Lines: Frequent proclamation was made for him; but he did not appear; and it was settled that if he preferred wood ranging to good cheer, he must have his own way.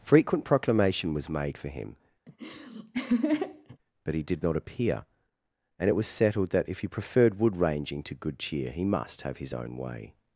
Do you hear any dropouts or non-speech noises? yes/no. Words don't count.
yes